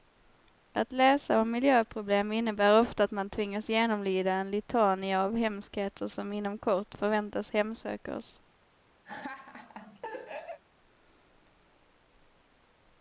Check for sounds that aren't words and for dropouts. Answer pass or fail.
fail